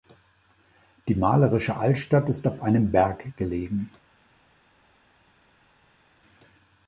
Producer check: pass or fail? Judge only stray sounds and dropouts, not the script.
pass